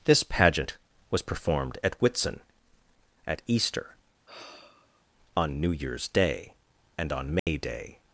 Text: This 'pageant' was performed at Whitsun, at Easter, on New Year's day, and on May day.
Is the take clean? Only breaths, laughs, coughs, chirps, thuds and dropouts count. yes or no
no